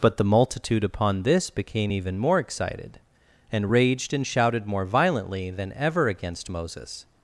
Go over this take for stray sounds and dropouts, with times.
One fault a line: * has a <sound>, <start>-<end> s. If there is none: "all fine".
all fine